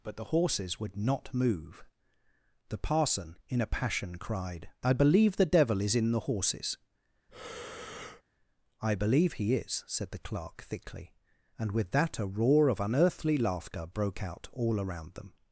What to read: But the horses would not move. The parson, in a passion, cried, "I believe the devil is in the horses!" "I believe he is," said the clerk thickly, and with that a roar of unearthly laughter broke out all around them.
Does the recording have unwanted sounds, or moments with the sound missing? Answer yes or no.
yes